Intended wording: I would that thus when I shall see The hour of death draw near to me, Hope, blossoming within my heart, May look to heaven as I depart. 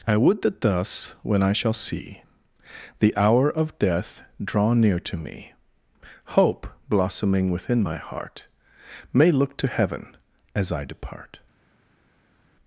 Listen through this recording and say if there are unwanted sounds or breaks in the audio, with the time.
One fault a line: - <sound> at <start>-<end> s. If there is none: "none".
none